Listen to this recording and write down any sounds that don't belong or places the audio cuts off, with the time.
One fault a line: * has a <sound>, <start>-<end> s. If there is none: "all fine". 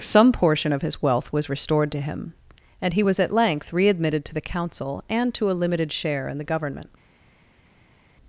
all fine